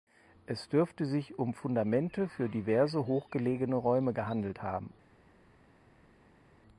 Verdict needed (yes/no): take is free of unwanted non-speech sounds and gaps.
yes